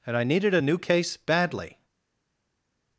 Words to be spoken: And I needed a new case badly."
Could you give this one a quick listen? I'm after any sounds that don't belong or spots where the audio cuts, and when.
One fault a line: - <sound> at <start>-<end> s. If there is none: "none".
none